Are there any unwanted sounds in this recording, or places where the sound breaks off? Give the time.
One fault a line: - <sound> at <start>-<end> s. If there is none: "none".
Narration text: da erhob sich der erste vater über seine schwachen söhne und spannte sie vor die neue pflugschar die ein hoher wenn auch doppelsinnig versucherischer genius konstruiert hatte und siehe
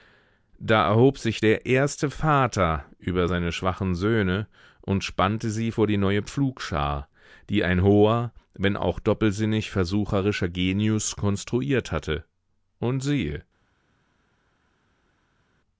none